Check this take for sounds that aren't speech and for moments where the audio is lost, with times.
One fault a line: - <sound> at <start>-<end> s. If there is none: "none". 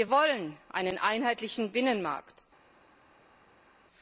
none